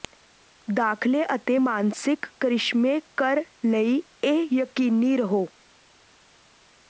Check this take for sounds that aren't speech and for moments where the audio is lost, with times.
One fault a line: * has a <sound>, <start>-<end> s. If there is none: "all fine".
all fine